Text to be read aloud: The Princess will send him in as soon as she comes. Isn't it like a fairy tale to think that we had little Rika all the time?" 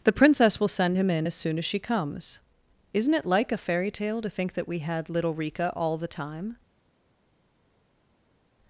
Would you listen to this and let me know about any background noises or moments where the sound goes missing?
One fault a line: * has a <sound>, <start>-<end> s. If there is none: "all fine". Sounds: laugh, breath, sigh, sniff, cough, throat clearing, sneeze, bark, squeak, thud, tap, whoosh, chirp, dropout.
all fine